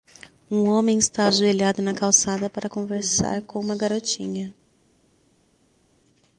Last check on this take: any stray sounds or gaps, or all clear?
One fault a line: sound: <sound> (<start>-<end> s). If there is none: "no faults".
no faults